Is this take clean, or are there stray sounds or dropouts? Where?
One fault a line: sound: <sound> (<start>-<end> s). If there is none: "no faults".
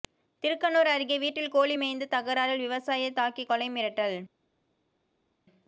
no faults